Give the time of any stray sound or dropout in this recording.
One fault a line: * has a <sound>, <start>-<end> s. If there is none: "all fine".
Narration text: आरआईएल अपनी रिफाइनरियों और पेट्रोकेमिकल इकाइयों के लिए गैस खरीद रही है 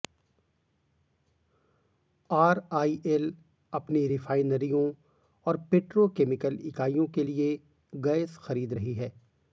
all fine